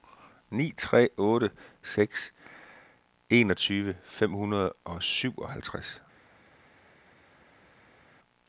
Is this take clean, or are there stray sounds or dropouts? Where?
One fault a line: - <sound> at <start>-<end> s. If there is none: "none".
none